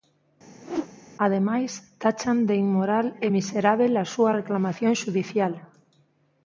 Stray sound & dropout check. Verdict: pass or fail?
fail